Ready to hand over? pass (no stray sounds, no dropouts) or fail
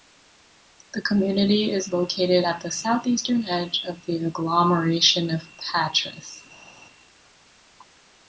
pass